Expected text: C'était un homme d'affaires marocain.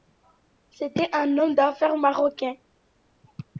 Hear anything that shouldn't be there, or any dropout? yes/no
no